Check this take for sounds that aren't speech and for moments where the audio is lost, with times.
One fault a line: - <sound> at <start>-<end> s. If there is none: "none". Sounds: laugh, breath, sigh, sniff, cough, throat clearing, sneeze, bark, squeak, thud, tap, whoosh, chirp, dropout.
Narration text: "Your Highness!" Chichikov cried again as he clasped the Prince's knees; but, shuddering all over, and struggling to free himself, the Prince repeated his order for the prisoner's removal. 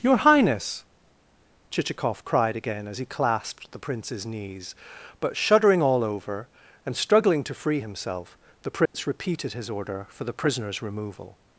- dropout at 8.9-8.9 s